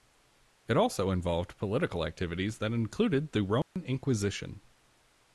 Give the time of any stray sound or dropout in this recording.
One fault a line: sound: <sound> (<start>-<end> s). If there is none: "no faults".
sound: dropout (3.6-3.8 s)